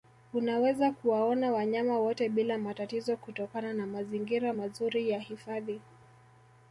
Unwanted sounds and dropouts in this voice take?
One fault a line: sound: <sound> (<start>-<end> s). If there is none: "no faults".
no faults